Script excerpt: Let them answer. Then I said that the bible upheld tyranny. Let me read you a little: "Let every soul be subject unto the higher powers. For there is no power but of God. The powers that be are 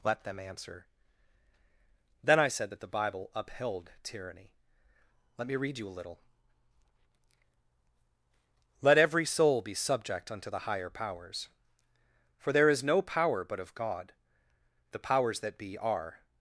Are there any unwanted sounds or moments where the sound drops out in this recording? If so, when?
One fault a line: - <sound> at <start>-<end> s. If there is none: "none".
none